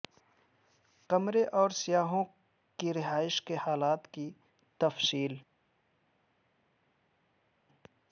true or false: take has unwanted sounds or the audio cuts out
false